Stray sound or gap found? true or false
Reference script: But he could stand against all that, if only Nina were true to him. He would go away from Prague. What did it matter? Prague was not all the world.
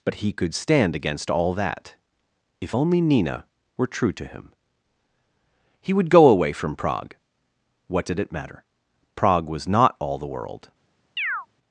true